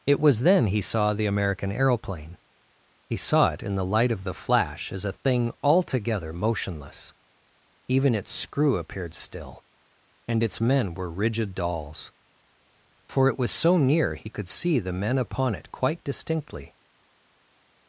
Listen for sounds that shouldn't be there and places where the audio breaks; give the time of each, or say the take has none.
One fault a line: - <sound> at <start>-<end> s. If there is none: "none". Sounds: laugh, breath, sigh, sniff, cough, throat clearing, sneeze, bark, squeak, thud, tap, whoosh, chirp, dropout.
none